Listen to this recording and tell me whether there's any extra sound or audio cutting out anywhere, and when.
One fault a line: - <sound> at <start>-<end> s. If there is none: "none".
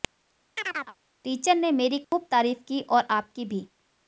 - chirp at 0.6-1.0 s
- dropout at 2.0-2.1 s